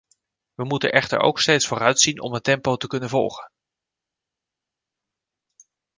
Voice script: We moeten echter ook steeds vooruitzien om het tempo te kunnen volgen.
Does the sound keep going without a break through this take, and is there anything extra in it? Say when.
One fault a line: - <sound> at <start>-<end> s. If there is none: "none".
none